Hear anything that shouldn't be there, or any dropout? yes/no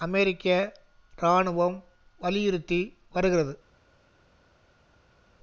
no